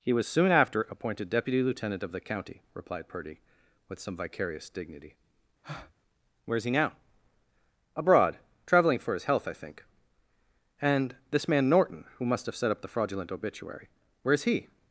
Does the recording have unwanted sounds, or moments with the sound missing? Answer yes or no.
yes